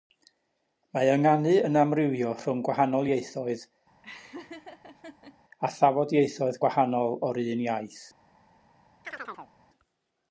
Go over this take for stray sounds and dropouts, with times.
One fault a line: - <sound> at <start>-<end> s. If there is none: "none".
- laugh at 4.0-5.4 s
- chirp at 9.0-9.5 s